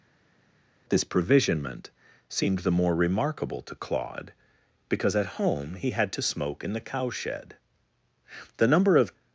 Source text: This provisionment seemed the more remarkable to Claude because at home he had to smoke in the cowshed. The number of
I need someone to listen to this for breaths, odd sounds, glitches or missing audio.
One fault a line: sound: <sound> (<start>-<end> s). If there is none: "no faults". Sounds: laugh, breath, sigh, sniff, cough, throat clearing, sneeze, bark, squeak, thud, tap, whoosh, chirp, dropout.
no faults